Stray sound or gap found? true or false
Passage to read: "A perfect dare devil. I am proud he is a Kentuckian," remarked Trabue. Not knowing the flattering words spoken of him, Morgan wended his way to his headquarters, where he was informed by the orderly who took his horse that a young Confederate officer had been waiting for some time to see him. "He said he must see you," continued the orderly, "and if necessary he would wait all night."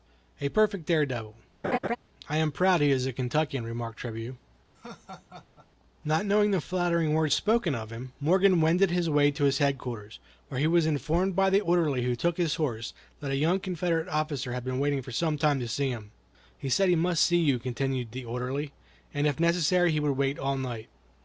true